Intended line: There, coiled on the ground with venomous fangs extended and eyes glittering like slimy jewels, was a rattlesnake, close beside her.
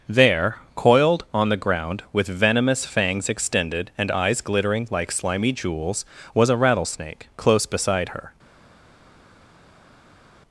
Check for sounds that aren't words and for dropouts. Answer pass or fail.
pass